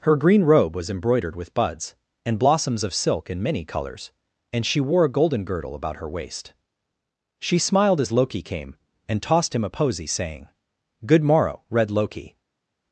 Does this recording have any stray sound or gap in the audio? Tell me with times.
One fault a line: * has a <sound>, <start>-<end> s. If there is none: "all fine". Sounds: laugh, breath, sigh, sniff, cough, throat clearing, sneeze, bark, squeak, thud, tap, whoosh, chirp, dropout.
all fine